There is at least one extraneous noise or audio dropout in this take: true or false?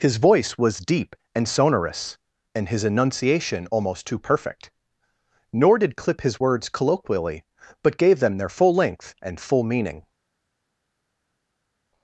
false